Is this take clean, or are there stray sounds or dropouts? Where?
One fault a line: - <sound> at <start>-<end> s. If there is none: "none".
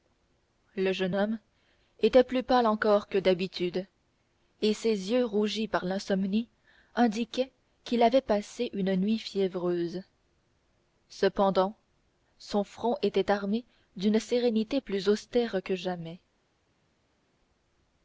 none